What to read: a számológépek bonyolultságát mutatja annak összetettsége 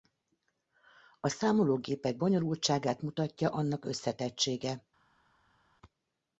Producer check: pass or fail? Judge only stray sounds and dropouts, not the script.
pass